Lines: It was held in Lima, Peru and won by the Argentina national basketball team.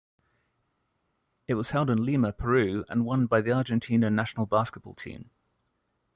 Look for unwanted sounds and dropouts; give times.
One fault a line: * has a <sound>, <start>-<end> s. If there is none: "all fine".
all fine